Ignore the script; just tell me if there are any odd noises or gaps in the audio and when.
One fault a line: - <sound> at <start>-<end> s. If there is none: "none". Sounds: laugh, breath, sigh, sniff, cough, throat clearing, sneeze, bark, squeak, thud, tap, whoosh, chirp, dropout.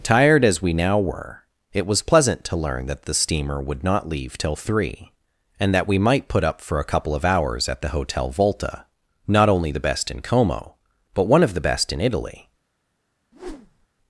- whoosh at 13.3-13.9 s